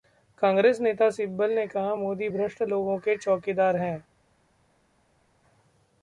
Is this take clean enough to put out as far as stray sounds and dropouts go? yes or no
yes